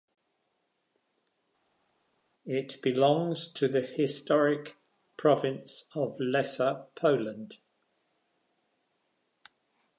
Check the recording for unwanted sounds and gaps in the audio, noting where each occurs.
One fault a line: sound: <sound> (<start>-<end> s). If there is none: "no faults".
no faults